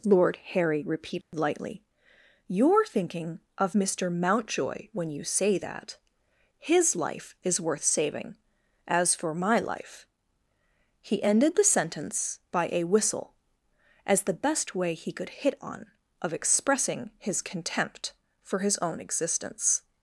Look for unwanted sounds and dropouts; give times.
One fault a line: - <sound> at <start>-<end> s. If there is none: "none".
- dropout at 1.2-1.3 s